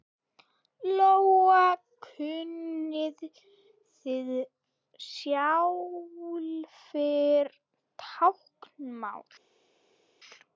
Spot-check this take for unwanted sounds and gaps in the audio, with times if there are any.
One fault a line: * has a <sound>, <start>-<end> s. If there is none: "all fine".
all fine